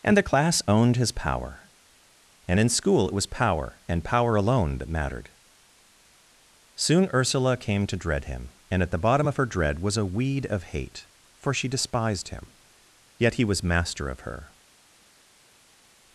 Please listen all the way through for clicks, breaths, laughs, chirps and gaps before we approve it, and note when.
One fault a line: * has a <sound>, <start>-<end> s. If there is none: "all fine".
all fine